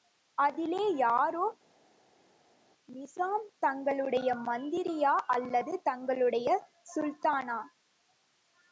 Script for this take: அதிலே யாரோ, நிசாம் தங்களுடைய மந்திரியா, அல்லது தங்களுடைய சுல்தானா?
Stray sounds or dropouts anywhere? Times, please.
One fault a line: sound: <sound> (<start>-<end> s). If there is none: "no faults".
no faults